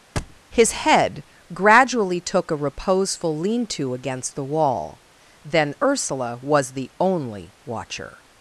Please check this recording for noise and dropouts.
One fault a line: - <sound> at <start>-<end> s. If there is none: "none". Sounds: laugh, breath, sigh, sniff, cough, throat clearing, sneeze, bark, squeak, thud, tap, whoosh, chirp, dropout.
- thud at 0.2-0.4 s